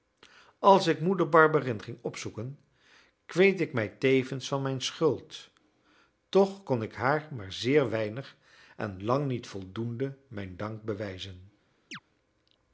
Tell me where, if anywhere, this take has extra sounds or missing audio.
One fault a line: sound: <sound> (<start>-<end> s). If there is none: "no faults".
sound: chirp (11.9-12.0 s)